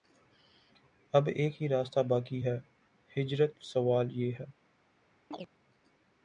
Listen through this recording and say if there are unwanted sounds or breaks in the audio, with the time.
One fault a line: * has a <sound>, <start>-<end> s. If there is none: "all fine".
* has a chirp, 5.3-5.5 s